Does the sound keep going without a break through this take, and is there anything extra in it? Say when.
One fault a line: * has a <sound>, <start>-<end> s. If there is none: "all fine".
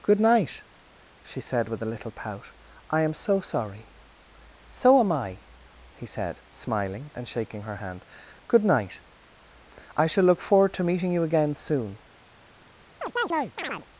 * has a chirp, 13.0-13.9 s